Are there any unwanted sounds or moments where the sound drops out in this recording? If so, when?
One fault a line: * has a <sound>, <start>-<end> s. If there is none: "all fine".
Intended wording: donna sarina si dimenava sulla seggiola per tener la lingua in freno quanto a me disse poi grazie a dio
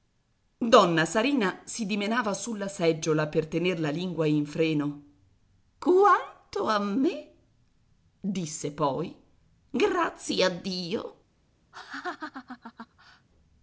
* has a laugh, 11.7-13.3 s